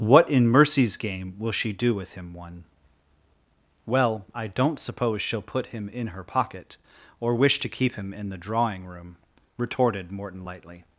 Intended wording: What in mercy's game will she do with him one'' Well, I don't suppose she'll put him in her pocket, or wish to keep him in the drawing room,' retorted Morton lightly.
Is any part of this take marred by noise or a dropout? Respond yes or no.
no